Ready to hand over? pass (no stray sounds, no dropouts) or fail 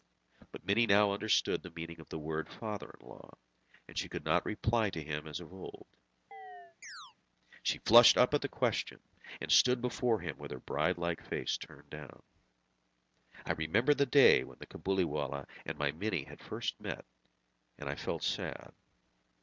fail